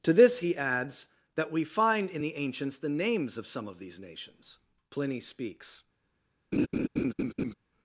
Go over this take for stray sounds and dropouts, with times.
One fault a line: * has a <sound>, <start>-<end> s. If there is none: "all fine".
* has a laugh, 6.5-7.5 s